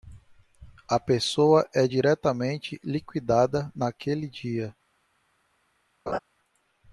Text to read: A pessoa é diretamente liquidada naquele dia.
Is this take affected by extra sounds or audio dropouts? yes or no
yes